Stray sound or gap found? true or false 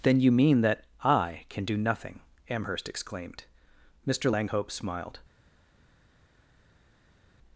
false